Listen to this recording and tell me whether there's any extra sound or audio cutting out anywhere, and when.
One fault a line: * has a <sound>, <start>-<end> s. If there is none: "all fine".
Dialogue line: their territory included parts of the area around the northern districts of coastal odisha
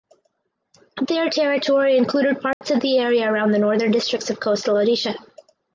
* has a dropout, 2.5-2.6 s